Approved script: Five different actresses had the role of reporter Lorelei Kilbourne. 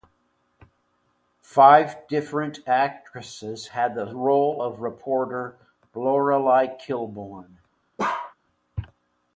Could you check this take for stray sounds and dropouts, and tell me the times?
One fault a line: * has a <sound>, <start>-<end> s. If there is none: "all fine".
* has a bark, 8.0-8.3 s